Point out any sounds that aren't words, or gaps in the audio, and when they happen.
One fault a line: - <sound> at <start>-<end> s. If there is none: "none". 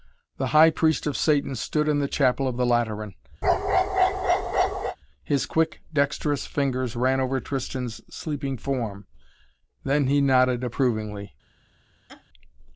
- bark at 3.4-5.0 s
- laugh at 12.1-12.2 s